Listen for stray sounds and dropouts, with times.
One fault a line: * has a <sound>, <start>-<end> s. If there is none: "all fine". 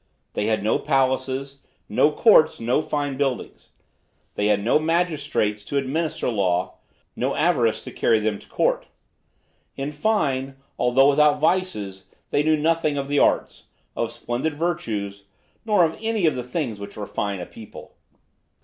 all fine